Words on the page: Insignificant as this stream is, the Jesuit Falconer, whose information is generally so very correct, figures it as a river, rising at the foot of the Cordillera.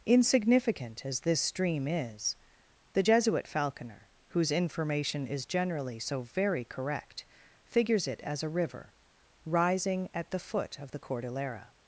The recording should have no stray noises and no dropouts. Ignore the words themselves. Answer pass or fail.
pass